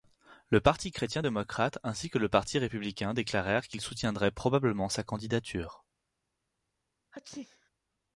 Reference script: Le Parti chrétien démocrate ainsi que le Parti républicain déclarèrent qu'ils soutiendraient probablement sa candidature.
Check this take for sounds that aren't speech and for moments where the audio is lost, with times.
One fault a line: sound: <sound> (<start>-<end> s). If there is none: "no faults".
sound: sneeze (7.1-7.7 s)